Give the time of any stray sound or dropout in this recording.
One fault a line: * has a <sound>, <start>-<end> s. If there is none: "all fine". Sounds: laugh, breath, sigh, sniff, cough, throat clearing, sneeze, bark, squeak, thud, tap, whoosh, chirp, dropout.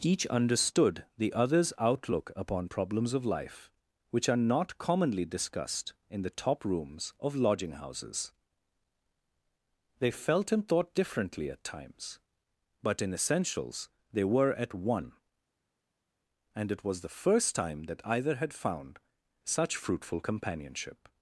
all fine